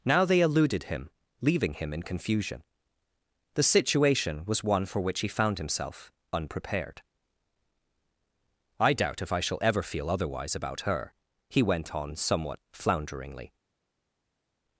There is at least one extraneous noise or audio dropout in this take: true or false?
false